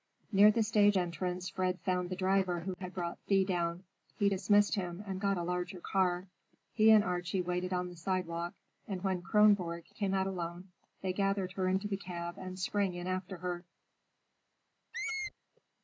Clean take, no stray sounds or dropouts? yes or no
no